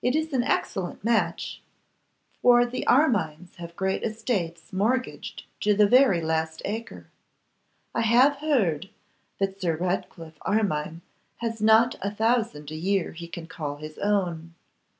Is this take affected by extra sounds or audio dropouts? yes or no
no